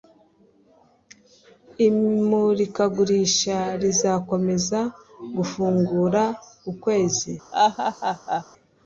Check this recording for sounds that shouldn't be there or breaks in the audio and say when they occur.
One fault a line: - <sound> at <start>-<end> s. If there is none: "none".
- laugh at 7.5-8.4 s